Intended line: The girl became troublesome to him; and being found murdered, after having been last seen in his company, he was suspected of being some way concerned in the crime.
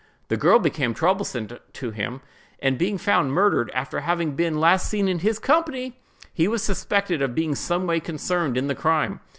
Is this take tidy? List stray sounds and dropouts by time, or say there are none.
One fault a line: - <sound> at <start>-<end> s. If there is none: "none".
none